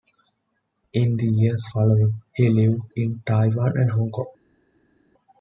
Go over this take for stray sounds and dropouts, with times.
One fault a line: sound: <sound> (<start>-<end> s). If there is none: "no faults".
no faults